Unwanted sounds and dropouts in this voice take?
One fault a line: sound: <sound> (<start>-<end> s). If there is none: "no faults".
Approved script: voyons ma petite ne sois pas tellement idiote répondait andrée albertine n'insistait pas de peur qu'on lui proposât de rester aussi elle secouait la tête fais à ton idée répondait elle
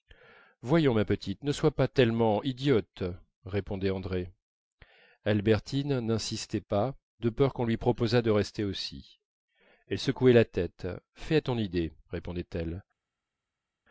no faults